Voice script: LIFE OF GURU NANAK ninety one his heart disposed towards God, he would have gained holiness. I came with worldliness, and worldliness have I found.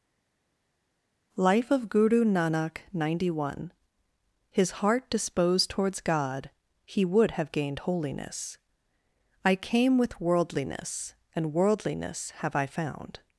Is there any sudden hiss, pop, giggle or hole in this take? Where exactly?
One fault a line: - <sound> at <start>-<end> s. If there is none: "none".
none